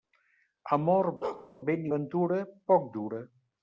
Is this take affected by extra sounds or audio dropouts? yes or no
yes